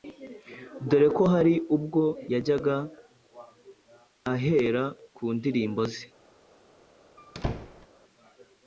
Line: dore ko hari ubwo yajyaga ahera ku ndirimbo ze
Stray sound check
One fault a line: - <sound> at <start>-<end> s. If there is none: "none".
- squeak at 7.2-7.9 s